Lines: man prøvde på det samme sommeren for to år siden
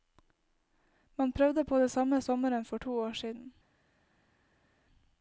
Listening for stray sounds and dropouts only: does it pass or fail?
pass